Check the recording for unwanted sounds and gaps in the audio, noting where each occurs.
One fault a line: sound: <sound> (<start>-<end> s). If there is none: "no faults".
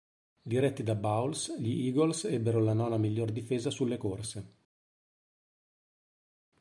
no faults